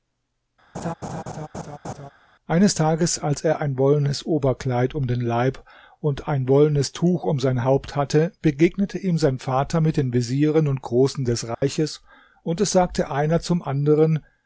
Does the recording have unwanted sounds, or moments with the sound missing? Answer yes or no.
yes